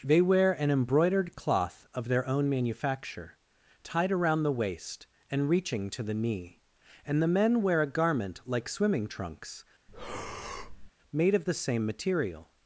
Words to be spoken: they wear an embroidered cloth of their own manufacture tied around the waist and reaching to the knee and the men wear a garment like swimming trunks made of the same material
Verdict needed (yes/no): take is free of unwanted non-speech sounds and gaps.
no